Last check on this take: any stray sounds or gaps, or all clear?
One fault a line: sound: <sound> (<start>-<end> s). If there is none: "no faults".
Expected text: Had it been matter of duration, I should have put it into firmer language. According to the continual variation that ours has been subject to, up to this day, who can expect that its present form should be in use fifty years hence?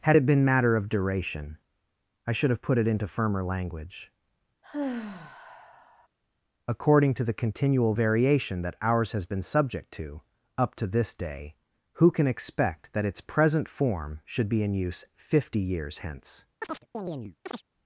sound: sigh (4.6-6.1 s)
sound: chirp (16.6-17.6 s)